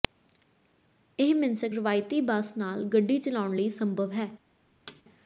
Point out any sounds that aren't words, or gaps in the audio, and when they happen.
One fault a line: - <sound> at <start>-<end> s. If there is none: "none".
- thud at 4.9-5.0 s